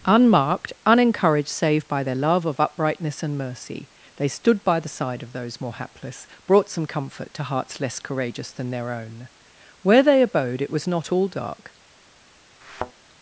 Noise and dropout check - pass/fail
fail